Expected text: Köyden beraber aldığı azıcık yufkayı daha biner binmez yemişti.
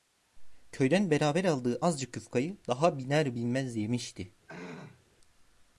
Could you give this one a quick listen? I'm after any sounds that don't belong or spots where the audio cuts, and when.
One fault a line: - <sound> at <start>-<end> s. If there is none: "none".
- throat clearing at 4.5-5.0 s